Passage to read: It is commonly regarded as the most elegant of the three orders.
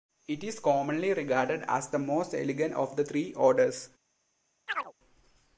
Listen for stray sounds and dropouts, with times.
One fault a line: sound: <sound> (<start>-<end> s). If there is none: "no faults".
sound: chirp (4.7-4.9 s)